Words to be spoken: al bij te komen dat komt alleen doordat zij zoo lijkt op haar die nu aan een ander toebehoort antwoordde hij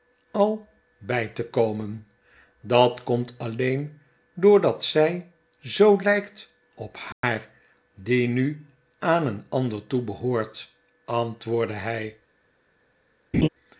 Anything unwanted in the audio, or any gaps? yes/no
yes